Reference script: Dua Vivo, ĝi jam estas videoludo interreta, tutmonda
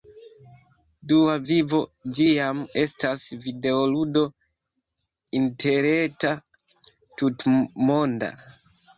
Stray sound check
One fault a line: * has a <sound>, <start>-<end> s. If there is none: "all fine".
all fine